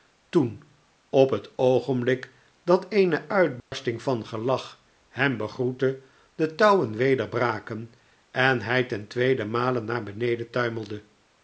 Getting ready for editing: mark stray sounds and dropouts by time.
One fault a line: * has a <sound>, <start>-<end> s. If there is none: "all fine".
* has a dropout, 3.6-3.7 s